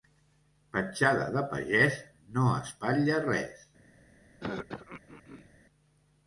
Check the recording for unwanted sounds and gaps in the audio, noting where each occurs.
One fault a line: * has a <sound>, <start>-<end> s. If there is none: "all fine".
* has a throat clearing, 4.4-5.5 s